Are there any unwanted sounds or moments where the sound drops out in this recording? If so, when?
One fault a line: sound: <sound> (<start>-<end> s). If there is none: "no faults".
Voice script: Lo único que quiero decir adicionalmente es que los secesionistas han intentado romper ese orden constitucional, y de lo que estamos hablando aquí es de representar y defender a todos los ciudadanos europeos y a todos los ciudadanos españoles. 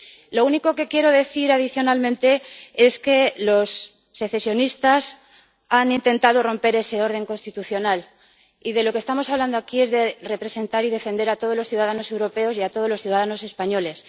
no faults